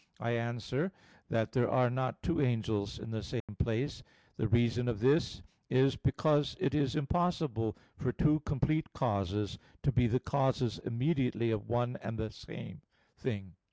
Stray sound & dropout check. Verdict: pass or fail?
fail